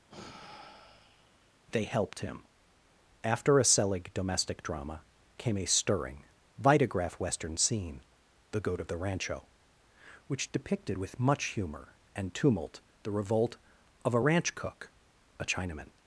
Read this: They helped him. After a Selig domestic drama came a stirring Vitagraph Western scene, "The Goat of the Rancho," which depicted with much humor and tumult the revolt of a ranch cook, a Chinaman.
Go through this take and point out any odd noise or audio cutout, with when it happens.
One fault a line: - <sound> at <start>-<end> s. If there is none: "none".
- sigh at 0.1-1.6 s